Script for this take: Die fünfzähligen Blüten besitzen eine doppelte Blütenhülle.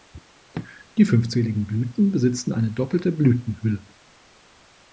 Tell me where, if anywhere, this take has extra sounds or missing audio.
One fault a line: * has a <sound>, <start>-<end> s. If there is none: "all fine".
all fine